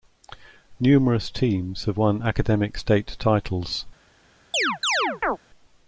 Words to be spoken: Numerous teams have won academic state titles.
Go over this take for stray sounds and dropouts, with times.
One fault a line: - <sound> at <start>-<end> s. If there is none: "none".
- chirp at 4.5-5.4 s